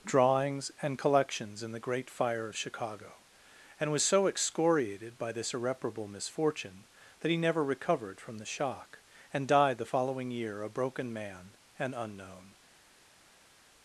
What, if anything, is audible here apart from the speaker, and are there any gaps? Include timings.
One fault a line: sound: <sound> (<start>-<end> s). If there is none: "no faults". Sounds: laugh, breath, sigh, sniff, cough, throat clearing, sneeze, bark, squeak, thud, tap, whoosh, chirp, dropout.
no faults